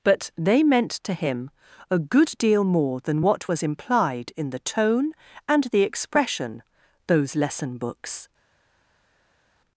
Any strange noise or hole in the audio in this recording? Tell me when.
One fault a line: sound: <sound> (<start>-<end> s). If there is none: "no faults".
no faults